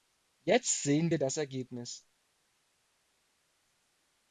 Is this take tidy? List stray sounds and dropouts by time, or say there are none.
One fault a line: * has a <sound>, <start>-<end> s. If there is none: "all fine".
all fine